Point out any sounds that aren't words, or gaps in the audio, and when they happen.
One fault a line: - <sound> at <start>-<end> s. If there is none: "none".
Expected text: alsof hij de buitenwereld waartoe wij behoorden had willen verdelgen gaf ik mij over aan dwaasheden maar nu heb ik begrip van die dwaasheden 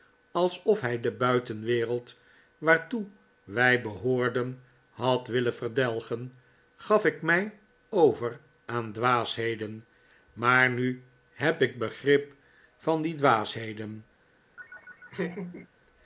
- laugh at 14.6-15.7 s